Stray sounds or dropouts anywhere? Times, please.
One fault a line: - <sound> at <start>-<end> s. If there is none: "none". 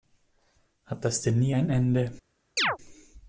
- chirp at 2.6-2.8 s